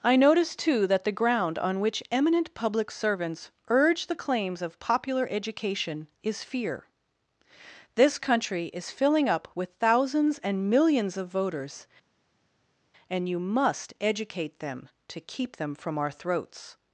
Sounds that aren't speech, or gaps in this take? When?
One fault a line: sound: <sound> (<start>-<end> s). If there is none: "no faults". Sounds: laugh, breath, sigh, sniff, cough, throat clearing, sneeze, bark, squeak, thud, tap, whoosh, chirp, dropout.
no faults